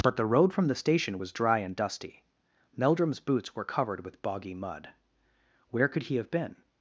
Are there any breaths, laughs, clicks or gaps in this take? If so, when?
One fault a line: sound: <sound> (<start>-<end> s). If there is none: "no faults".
no faults